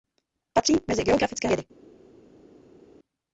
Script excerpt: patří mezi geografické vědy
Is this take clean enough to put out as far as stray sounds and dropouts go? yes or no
yes